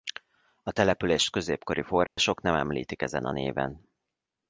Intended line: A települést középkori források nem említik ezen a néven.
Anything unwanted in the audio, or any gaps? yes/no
yes